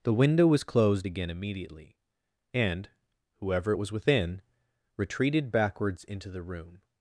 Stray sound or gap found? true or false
false